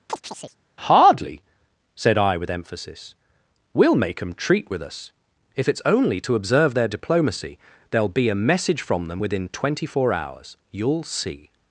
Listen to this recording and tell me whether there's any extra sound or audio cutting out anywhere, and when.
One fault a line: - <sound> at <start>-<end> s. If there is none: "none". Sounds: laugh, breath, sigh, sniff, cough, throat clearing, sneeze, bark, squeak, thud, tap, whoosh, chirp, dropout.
- chirp at 0.1-0.6 s